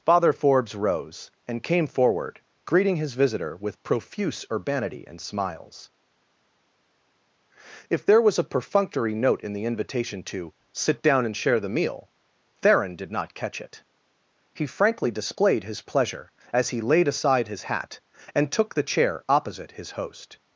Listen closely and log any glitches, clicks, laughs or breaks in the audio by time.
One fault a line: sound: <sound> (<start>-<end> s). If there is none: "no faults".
no faults